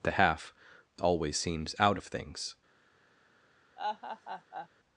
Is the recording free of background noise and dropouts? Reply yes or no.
no